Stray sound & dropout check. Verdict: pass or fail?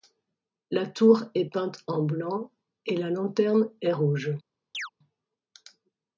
fail